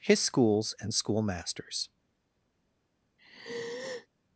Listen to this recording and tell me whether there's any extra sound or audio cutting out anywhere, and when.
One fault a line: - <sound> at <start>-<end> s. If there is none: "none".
- sigh at 3.2-4.1 s